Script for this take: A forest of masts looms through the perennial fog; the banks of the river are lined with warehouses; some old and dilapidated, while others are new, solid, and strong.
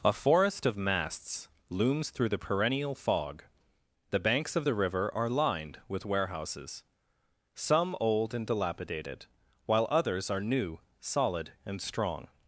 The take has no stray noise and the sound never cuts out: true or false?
true